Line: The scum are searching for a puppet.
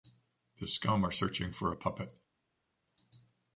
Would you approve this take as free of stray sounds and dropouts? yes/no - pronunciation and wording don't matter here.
yes